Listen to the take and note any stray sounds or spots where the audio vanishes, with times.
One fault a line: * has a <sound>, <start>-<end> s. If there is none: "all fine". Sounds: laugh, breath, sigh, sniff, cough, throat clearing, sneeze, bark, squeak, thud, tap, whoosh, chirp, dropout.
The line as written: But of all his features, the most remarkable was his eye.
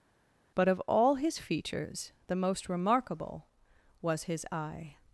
all fine